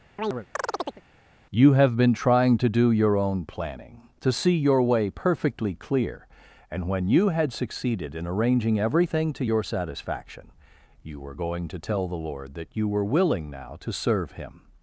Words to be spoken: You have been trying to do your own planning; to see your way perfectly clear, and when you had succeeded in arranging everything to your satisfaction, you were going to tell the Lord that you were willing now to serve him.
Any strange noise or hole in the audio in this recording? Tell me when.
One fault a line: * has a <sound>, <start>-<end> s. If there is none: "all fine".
* has a chirp, 0.2-1.0 s